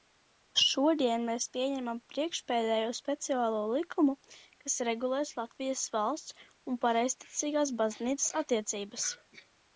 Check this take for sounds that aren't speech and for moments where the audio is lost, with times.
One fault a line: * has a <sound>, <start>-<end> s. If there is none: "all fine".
all fine